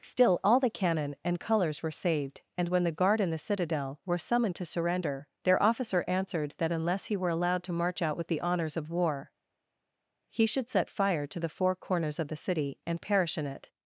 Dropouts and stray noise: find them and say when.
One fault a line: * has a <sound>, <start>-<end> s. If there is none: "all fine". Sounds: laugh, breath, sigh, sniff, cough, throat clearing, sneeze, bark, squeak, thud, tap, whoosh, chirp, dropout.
all fine